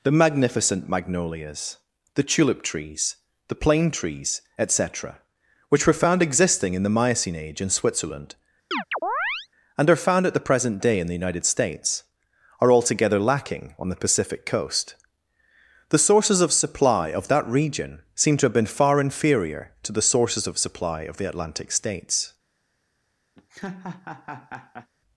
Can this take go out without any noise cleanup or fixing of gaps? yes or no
no